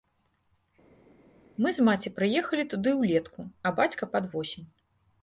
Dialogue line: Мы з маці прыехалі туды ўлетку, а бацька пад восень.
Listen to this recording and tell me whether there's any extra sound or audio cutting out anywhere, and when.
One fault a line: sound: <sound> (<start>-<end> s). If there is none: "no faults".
no faults